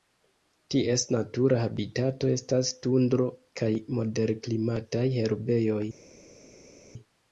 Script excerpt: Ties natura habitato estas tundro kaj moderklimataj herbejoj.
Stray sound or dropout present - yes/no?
no